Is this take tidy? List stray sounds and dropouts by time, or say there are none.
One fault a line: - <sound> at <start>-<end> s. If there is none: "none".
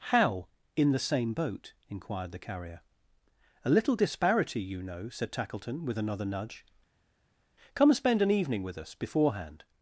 none